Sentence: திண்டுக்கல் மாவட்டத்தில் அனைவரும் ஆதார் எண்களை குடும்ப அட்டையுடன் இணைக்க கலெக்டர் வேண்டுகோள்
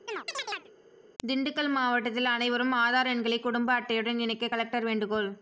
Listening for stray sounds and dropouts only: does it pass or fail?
fail